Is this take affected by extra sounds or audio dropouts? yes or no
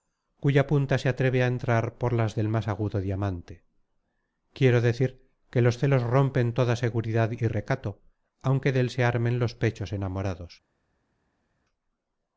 no